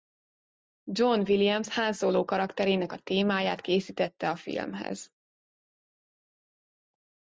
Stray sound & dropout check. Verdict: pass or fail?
pass